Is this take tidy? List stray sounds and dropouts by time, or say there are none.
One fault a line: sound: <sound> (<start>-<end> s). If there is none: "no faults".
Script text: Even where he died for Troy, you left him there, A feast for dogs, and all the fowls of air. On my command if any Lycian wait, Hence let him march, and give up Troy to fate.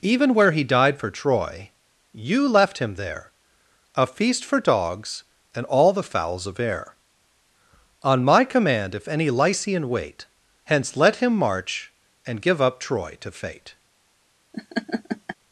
sound: laugh (14.5-15.4 s)